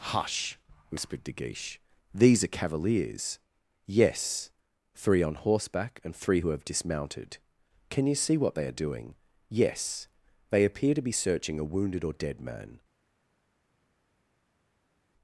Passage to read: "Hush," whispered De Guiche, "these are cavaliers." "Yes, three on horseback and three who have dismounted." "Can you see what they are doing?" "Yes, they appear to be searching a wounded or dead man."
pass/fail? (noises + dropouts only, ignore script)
pass